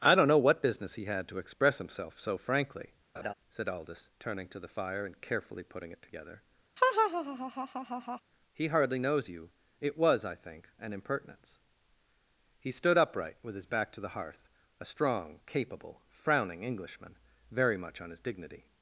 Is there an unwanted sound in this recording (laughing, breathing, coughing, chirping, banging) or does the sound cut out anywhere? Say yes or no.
yes